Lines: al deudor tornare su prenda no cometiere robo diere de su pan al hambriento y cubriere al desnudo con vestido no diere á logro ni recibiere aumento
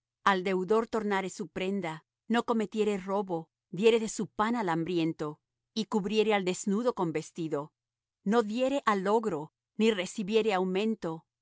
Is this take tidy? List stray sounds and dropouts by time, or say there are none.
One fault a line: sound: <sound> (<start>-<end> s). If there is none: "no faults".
no faults